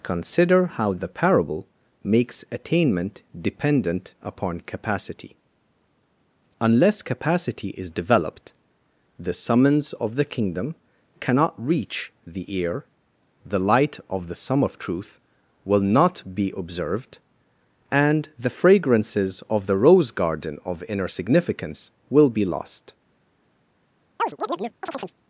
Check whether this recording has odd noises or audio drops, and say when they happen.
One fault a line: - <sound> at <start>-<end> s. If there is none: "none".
- chirp at 24.2-25.2 s